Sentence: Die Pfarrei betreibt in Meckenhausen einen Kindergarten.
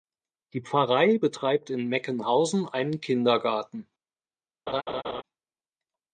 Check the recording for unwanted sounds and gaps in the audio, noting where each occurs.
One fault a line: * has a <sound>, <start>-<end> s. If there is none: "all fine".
* has a laugh, 4.7-5.2 s